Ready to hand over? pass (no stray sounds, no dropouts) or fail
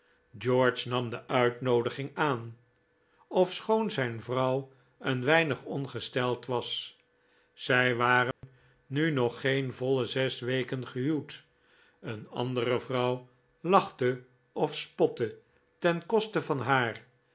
fail